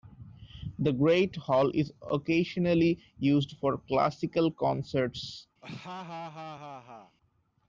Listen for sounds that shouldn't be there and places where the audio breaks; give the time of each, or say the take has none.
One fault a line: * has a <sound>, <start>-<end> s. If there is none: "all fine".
* has a laugh, 5.6-7.2 s